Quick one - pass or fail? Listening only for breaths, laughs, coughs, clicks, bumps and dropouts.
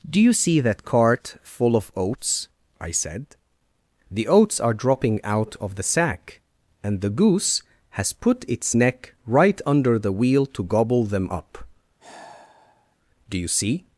fail